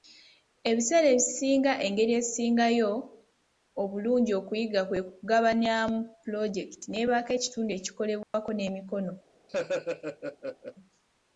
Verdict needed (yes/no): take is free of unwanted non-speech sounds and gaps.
no